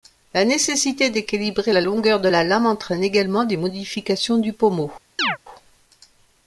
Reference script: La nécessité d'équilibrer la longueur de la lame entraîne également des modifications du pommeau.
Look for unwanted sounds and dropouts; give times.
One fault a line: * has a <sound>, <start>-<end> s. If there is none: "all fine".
* has a chirp, 5.2-5.4 s